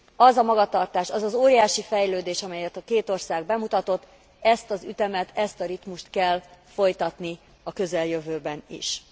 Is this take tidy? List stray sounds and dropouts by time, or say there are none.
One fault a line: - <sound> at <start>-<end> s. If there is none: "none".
none